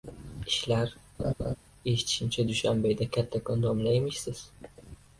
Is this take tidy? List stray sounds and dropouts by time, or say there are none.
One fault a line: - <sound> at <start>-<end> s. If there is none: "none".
- laugh at 1.2-1.6 s